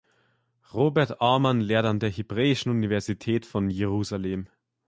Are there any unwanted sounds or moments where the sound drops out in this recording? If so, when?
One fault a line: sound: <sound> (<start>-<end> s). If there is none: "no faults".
no faults